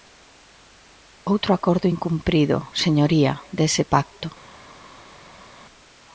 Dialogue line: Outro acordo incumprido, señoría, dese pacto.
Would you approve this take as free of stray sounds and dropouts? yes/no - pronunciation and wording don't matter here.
yes